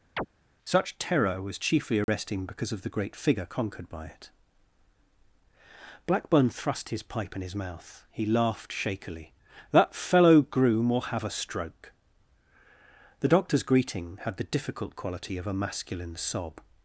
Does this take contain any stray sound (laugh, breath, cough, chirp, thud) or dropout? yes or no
yes